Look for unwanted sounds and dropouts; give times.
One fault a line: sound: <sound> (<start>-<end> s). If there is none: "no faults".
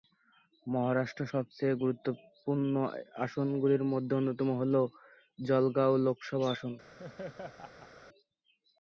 sound: laugh (7.0-7.9 s)